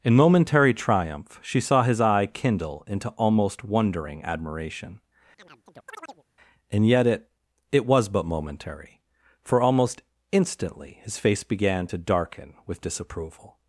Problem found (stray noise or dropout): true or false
true